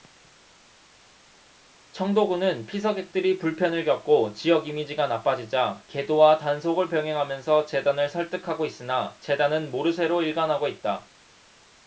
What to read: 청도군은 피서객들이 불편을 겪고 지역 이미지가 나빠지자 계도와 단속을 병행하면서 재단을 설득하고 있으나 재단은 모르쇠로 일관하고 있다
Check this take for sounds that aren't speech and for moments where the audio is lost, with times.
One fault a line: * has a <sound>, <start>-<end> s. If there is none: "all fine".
all fine